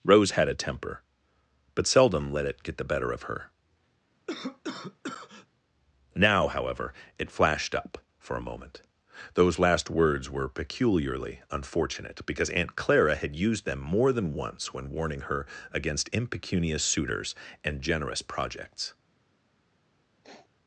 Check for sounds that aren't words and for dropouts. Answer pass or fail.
fail